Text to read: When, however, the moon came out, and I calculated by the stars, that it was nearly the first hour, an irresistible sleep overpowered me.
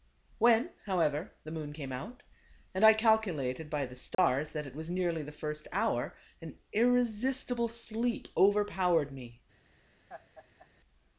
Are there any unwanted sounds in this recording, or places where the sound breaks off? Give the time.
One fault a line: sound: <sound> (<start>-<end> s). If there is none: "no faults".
sound: dropout (4.1-4.2 s)
sound: laugh (10.1-10.7 s)